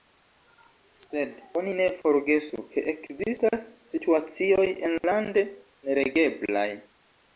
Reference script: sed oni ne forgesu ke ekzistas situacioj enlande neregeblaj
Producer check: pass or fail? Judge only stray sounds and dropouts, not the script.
fail